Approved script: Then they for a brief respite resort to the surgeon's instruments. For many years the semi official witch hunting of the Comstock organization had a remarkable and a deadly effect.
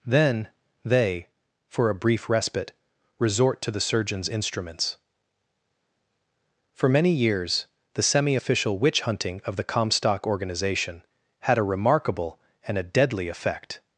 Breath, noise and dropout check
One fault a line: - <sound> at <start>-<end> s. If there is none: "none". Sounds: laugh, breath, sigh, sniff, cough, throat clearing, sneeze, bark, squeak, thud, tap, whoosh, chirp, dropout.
none